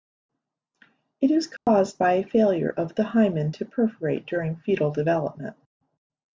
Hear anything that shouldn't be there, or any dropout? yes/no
yes